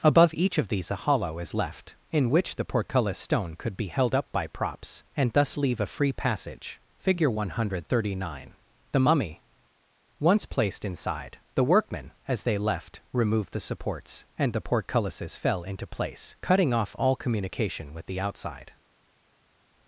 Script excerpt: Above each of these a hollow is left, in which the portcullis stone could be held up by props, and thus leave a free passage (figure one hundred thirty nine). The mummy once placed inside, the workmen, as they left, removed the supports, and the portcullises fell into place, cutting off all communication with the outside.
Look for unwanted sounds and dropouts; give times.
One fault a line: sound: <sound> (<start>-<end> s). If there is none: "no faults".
no faults